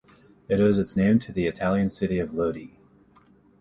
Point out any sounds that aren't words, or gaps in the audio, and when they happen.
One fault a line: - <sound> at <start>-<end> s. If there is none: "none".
none